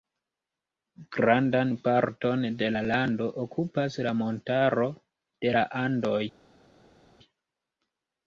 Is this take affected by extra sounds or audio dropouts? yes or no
no